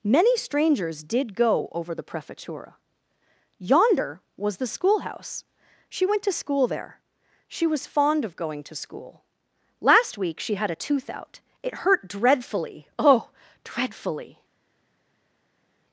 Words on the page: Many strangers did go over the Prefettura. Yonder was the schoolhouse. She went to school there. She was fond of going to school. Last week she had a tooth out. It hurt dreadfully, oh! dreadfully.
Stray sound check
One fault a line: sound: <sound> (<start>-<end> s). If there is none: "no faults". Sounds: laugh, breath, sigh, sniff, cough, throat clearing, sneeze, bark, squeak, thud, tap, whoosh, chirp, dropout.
no faults